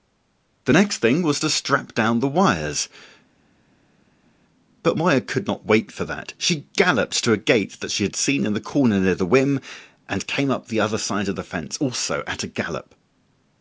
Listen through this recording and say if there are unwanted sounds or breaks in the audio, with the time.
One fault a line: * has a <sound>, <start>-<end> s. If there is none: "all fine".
all fine